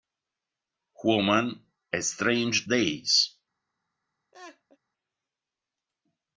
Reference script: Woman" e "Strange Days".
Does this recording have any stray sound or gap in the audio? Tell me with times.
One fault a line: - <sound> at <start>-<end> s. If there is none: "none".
- laugh at 4.3-4.8 s